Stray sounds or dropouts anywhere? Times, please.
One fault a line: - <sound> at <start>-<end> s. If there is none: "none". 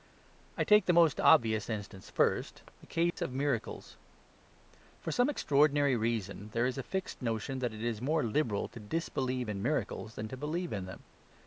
- dropout at 3.1-3.2 s